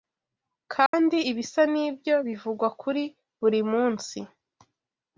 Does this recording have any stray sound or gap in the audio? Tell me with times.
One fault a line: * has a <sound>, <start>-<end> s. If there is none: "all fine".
* has a dropout, 0.9-0.9 s